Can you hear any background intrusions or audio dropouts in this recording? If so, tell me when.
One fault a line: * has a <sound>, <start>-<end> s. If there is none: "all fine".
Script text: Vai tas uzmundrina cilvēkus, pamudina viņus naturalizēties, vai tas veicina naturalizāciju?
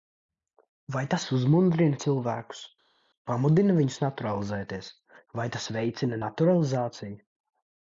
all fine